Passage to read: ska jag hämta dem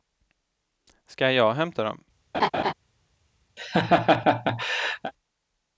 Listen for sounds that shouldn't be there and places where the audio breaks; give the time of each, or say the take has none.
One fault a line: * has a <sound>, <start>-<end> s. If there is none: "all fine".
* has a laugh, 2.3-2.7 s
* has a laugh, 3.6-5.1 s